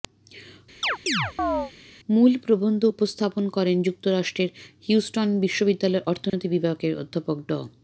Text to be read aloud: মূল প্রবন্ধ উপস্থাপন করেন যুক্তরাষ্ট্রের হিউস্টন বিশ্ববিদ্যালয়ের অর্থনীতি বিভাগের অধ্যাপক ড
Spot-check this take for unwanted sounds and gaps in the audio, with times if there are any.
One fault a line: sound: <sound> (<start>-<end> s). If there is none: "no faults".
sound: chirp (0.8-1.7 s)
sound: dropout (6.3-6.3 s)